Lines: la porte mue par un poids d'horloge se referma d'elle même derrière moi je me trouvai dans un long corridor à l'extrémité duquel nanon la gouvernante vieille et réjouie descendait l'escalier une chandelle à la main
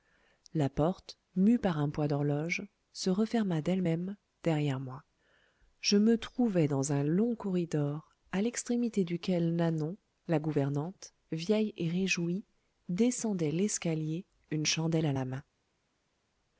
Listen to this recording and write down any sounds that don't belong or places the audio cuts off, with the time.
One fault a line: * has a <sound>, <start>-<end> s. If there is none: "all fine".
all fine